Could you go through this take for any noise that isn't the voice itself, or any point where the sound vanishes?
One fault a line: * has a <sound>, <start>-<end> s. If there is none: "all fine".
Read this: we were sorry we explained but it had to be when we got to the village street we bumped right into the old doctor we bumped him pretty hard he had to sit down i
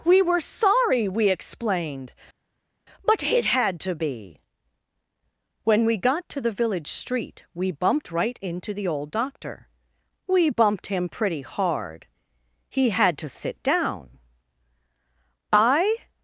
all fine